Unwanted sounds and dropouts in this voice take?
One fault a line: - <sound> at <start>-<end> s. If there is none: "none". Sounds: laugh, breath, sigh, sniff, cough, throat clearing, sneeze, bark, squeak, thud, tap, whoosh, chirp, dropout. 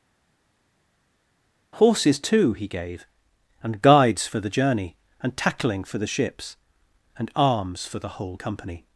none